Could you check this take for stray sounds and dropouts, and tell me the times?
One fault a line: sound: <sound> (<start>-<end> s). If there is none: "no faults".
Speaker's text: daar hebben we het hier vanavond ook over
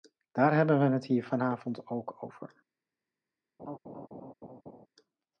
sound: laugh (3.6-4.9 s)